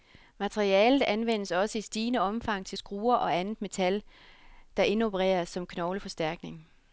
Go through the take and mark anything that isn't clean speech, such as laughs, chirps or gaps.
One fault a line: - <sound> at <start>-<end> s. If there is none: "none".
none